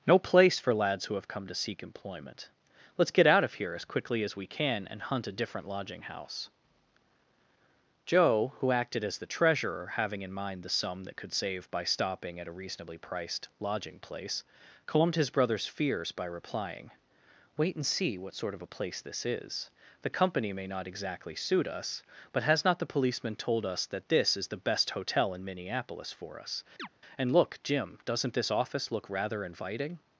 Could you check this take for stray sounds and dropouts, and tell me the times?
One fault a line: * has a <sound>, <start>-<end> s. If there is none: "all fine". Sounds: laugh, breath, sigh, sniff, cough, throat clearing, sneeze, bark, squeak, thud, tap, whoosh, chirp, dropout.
* has a chirp, 26.8-26.9 s